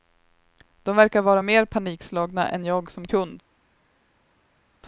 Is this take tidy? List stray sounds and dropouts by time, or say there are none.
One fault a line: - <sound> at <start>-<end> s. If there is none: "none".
none